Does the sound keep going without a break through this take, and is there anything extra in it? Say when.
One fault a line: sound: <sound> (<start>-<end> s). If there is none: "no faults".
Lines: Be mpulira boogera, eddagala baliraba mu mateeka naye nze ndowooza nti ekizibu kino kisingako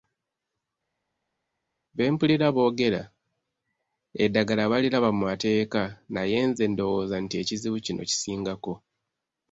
no faults